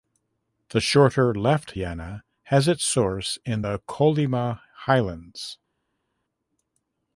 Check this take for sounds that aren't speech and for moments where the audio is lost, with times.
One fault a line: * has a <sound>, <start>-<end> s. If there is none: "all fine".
all fine